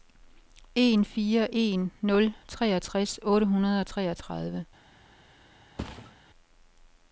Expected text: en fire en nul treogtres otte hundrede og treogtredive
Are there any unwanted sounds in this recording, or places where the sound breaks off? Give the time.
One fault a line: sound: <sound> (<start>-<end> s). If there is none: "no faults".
sound: thud (5.8-6.2 s)